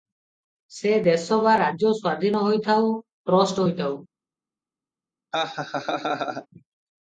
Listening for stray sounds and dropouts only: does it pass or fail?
fail